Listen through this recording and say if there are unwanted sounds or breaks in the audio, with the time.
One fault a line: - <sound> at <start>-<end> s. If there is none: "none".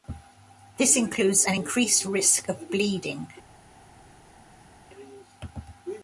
none